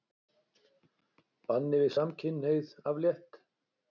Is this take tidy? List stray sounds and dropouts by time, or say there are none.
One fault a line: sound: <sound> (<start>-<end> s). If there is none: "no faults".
no faults